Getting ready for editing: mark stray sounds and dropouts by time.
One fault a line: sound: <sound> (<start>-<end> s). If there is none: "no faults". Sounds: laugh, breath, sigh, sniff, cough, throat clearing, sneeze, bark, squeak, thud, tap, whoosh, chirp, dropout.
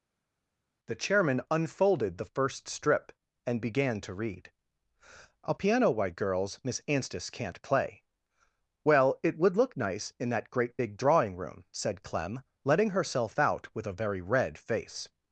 no faults